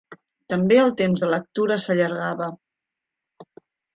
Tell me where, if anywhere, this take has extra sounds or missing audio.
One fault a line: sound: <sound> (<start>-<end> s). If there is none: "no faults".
no faults